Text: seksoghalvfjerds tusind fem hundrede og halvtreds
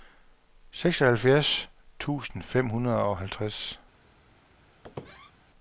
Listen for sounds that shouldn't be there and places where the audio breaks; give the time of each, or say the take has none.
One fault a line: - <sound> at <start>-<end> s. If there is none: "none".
- squeak at 4.8-5.3 s